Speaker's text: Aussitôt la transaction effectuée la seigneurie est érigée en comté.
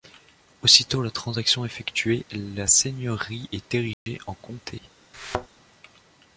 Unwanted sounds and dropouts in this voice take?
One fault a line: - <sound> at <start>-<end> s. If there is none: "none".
- dropout at 3.9-4.1 s
- thud at 5.1-5.5 s